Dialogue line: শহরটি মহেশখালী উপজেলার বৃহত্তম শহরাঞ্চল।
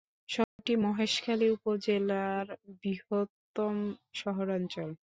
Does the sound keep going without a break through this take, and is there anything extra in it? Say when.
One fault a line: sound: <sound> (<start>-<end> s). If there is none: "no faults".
sound: dropout (0.4-0.6 s)